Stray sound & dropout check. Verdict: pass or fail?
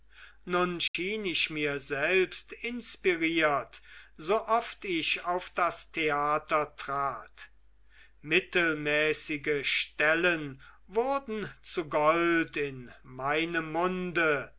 fail